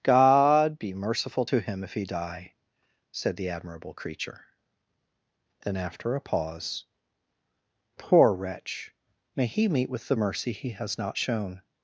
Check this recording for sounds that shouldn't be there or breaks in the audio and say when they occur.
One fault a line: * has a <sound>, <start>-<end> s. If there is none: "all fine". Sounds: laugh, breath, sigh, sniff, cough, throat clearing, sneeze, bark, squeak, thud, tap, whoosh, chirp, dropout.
all fine